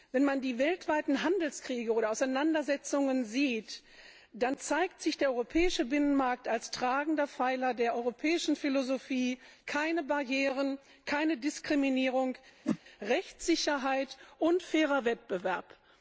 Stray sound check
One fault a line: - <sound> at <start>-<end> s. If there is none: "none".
- whoosh at 12.6-12.8 s